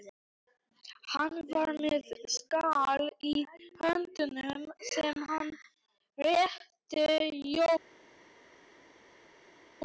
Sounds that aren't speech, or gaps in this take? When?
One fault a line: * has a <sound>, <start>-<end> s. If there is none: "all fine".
all fine